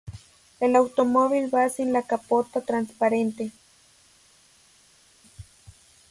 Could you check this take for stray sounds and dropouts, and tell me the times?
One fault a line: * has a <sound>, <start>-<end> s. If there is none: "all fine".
all fine